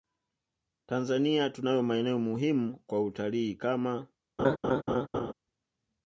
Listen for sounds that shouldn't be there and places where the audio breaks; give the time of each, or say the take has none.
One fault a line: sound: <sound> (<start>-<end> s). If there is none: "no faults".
sound: laugh (4.4-5.3 s)